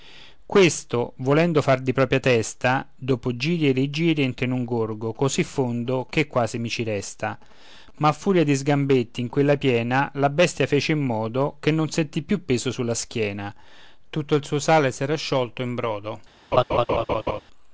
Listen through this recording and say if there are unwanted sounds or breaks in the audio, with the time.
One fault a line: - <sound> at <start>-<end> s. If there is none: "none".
- laugh at 16.5-17.4 s